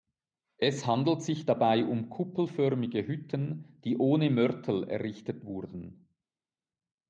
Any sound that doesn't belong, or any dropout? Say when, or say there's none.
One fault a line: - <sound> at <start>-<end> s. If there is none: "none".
none